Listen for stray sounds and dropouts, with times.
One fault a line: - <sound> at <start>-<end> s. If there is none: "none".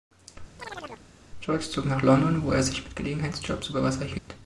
- chirp at 0.6-1.1 s
- dropout at 4.2-4.3 s